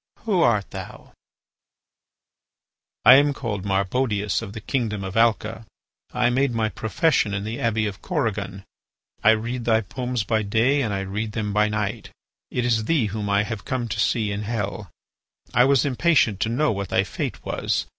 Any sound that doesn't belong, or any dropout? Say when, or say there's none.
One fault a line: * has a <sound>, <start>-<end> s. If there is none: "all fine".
all fine